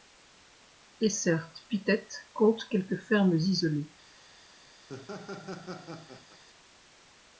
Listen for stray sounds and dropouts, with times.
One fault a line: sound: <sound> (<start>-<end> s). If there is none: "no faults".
sound: laugh (4.9-6.4 s)